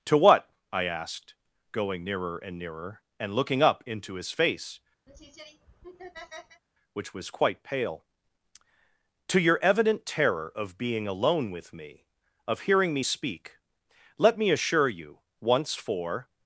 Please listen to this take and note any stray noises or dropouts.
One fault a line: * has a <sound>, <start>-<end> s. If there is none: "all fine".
* has a laugh, 5.1-6.6 s